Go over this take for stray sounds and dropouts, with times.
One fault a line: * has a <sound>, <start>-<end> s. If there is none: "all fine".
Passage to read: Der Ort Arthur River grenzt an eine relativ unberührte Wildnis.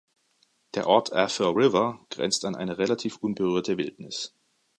all fine